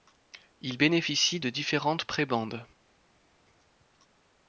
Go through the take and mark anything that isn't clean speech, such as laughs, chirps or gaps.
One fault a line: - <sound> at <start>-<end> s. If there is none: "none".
none